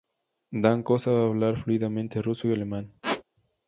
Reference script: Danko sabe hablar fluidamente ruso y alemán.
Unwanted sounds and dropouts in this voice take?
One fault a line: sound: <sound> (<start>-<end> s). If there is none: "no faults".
sound: squeak (3.0-3.2 s)